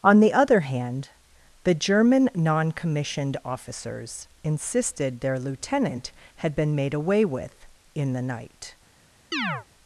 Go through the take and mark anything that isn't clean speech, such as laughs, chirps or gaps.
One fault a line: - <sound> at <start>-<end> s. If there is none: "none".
- chirp at 9.3-9.7 s